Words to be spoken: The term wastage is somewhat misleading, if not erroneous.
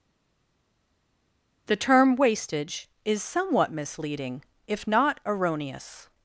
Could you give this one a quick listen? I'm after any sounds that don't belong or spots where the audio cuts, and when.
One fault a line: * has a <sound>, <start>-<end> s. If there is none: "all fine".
all fine